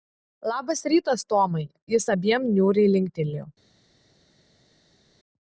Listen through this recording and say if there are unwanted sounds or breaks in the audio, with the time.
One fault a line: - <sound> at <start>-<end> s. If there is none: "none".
none